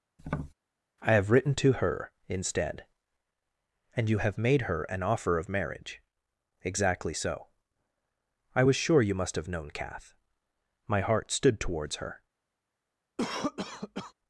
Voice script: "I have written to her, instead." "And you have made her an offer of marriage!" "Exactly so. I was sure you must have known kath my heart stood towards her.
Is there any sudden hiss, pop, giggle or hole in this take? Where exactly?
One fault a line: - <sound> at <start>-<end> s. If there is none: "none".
- tap at 0.2-0.5 s
- cough at 13.2-14.1 s